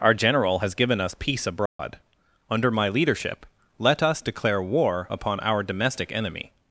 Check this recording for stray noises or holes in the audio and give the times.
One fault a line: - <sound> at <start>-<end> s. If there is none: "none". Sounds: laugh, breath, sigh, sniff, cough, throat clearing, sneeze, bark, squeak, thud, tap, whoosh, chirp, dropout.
- dropout at 1.7-1.8 s